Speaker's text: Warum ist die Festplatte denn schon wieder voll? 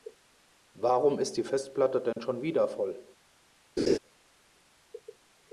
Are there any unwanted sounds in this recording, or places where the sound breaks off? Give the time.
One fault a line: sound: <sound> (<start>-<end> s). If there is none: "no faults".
sound: dropout (2.1-2.2 s)
sound: laugh (3.8-4.0 s)